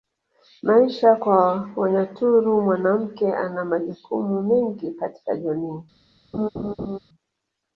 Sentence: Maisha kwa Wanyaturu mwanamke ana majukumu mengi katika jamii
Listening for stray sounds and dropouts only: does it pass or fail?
fail